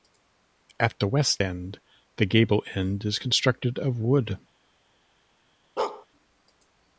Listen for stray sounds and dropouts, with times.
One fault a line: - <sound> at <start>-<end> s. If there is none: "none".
- bark at 5.8-6.1 s